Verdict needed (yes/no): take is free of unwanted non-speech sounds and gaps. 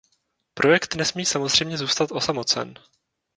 yes